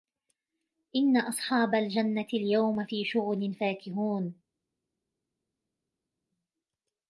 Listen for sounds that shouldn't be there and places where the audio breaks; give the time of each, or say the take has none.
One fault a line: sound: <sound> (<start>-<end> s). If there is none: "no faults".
no faults